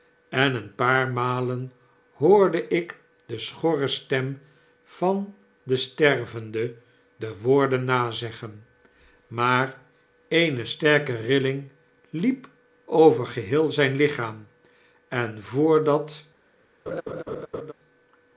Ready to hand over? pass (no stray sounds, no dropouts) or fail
fail